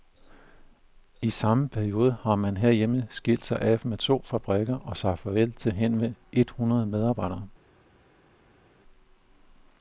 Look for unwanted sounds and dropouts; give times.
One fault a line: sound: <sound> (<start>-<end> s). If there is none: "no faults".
no faults